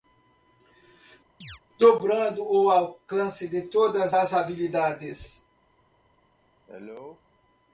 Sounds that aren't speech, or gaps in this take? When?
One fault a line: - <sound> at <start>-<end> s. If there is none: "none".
- chirp at 1.4-1.6 s
- cough at 6.7-7.2 s